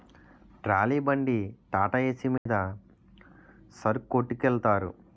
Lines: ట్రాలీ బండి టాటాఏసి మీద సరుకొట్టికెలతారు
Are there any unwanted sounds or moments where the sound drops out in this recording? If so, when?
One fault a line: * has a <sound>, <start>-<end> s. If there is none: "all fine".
* has a dropout, 2.4-2.5 s